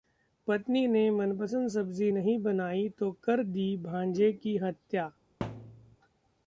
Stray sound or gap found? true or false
true